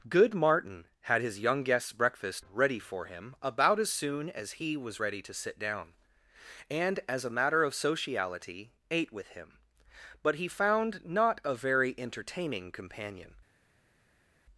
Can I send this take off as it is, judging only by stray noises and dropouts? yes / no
yes